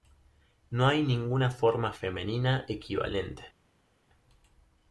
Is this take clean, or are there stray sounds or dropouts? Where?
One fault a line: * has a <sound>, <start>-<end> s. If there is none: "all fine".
all fine